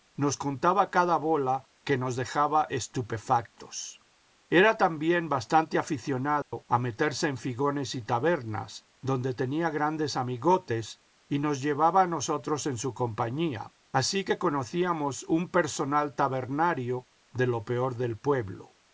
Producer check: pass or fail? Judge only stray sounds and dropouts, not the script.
fail